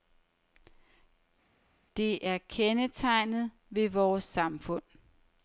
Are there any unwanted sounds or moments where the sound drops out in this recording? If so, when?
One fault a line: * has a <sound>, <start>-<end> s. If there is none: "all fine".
all fine